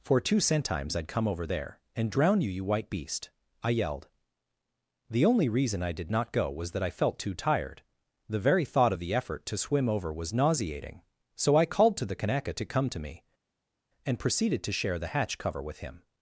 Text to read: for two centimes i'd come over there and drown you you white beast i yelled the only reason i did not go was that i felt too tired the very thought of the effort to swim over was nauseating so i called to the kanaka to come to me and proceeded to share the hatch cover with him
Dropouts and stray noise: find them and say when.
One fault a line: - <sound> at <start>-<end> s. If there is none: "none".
none